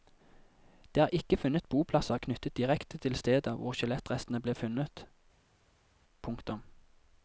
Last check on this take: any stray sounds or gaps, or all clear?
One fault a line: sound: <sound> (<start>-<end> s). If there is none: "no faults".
no faults